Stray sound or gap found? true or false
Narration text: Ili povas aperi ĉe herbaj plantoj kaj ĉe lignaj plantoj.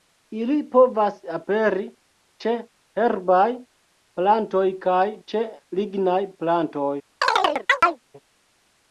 true